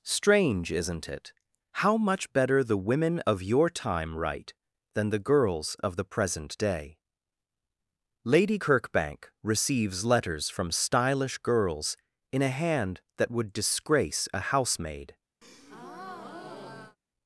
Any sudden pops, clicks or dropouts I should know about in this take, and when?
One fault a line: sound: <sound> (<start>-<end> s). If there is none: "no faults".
sound: breath (15.4-17.0 s)